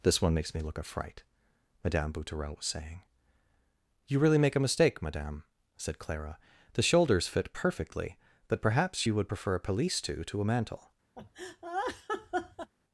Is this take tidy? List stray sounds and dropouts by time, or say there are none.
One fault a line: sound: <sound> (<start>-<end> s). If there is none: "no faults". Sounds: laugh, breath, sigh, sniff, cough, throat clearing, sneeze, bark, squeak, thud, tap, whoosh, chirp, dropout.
sound: laugh (11.2-12.7 s)